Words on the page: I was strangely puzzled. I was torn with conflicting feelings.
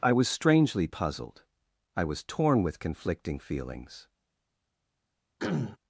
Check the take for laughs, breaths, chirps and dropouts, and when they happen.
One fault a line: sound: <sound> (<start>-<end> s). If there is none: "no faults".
sound: throat clearing (5.4-5.8 s)